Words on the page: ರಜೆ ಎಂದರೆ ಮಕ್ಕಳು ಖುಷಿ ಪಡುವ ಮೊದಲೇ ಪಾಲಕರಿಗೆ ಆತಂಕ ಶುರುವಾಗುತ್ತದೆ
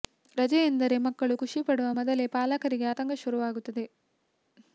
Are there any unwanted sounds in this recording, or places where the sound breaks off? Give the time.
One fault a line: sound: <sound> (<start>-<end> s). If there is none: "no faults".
no faults